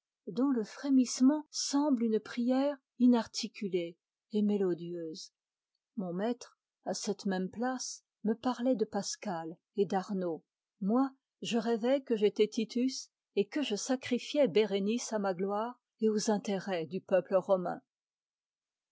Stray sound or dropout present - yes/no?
no